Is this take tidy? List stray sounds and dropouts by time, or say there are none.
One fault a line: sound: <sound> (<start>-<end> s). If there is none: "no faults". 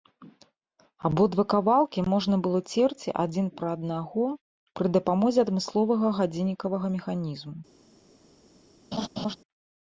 sound: laugh (8.9-9.4 s)